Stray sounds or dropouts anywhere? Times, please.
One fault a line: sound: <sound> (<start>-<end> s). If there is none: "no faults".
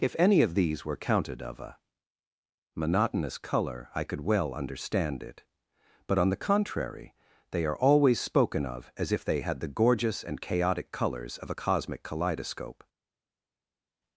no faults